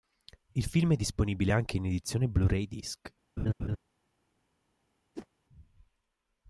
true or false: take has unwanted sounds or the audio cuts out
true